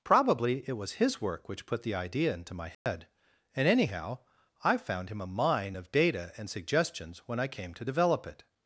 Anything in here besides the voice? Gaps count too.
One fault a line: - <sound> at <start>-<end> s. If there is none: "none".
- dropout at 2.7-2.9 s